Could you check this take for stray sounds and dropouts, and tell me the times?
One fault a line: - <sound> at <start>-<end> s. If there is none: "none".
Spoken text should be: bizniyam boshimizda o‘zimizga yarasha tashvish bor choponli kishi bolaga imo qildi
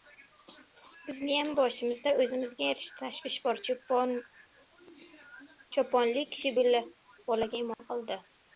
- dropout at 7.7-7.8 s